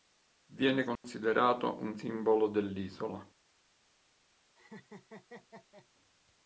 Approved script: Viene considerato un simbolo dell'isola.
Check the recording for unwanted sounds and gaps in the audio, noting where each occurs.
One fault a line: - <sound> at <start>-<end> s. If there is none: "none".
- dropout at 1.0-1.0 s
- laugh at 4.6-5.9 s